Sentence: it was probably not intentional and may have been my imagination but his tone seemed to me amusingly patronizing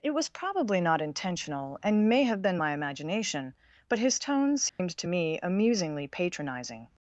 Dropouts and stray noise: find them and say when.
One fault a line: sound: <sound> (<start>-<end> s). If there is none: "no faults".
sound: dropout (4.7-4.8 s)